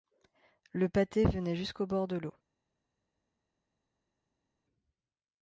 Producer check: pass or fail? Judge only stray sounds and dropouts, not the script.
pass